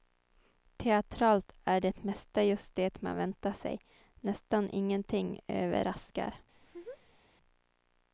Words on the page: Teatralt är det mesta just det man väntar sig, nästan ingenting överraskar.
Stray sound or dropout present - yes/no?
yes